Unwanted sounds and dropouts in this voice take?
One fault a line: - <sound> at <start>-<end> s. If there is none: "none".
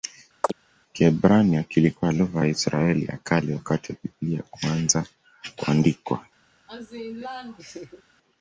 - chirp at 0.4-0.5 s
- laugh at 6.7-8.0 s